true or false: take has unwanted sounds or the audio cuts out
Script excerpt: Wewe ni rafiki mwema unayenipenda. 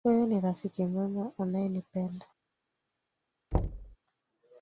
true